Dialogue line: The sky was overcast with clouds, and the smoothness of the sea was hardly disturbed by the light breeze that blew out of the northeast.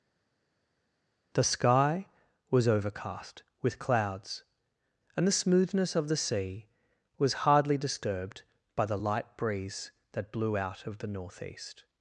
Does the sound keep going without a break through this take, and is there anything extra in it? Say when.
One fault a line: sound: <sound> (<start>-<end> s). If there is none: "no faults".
no faults